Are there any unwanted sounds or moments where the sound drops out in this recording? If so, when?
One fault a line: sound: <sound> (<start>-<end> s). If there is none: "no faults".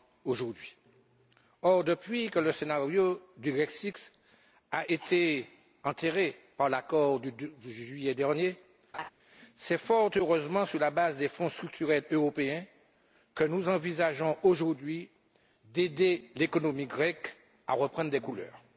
sound: laugh (8.9-9.1 s)